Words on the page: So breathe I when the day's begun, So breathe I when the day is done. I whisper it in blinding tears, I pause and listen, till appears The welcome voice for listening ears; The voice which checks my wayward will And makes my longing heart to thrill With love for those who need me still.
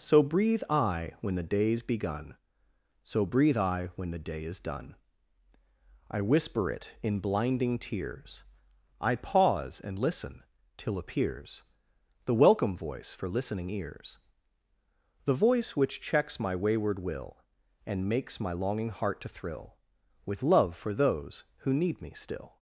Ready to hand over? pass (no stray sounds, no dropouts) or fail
pass